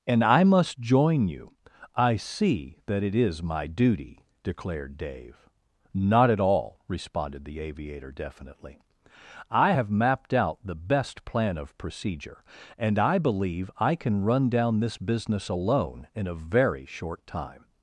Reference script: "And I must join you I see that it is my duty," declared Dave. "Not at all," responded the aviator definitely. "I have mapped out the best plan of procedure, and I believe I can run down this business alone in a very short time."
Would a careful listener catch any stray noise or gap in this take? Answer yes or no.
no